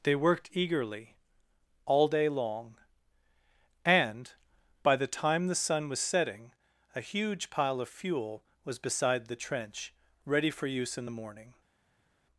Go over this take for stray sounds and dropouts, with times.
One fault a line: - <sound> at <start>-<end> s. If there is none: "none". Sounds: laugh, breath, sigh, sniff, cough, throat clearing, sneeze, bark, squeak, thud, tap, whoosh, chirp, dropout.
none